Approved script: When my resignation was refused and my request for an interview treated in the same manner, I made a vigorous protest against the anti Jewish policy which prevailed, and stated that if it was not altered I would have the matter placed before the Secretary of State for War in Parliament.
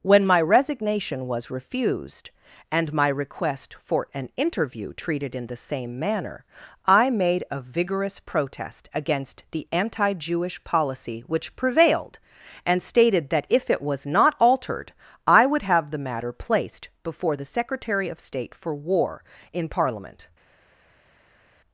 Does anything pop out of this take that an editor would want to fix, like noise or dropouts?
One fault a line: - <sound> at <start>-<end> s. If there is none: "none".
none